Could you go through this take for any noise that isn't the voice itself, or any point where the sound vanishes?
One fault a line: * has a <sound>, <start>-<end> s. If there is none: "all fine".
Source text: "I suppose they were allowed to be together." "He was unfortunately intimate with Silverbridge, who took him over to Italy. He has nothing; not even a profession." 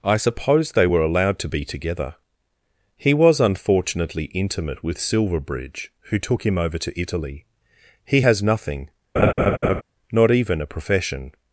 * has a laugh, 9.2-9.8 s